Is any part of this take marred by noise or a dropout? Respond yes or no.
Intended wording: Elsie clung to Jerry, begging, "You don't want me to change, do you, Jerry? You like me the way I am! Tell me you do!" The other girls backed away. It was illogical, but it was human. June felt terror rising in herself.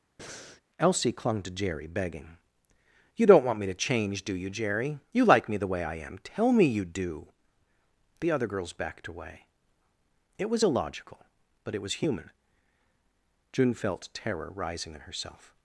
yes